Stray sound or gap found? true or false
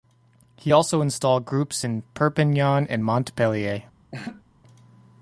true